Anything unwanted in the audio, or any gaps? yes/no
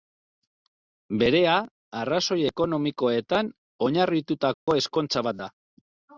yes